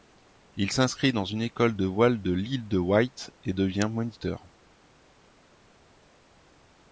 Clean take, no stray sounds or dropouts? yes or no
yes